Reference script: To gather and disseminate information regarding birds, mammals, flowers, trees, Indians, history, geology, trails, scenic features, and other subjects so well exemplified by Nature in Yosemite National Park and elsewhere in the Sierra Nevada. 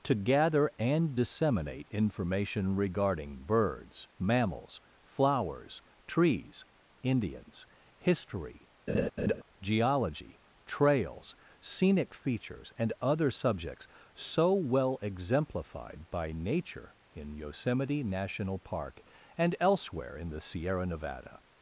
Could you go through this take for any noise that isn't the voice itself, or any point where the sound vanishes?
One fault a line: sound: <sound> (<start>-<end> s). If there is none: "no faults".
sound: laugh (8.9-9.4 s)